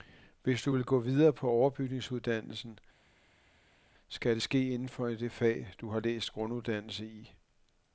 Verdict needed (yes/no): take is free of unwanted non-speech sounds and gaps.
yes